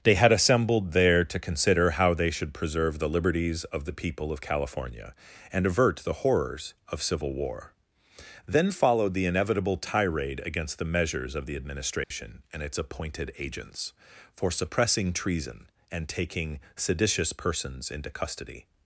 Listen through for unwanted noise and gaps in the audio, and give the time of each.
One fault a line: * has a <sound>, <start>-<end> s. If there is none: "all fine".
* has a dropout, 12.0-12.1 s